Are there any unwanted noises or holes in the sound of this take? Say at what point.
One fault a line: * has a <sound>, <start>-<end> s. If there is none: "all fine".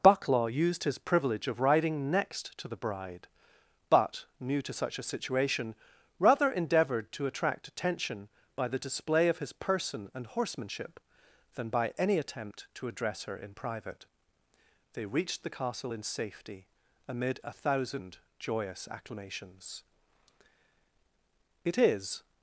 all fine